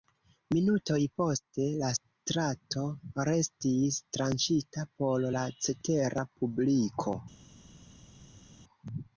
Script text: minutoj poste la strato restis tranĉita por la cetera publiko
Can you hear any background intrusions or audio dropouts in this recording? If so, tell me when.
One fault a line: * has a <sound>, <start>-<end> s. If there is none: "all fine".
all fine